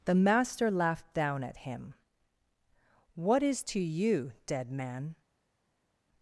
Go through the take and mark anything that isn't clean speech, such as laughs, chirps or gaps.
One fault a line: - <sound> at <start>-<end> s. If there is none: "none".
none